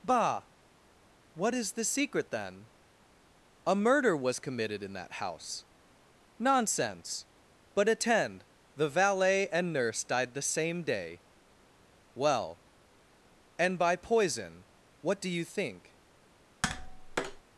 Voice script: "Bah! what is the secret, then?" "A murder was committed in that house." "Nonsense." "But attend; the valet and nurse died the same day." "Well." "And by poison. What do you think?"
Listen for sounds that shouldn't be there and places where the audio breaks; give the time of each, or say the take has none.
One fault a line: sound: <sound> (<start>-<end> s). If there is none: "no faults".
sound: tap (16.6-17.4 s)